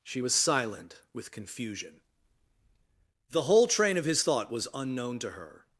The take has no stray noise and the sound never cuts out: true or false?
true